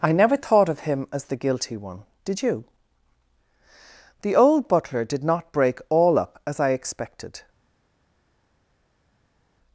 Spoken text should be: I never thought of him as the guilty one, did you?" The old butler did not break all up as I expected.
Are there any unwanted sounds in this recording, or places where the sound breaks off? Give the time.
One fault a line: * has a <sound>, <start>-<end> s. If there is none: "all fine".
all fine